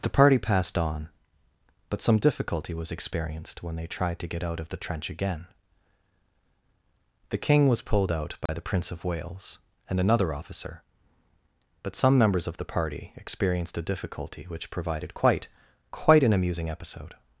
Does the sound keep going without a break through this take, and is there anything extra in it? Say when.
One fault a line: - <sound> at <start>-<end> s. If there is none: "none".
- dropout at 8.5-8.5 s